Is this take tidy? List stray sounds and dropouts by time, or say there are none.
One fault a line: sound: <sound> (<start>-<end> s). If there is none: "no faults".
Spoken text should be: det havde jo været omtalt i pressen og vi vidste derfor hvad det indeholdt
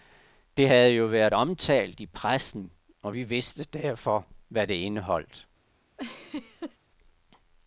sound: laugh (6.0-6.8 s)